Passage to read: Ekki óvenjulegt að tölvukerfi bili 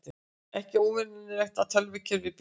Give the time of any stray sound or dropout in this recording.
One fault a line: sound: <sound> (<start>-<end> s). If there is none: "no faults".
no faults